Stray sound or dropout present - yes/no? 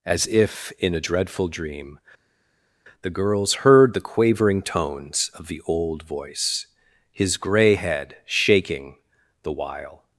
no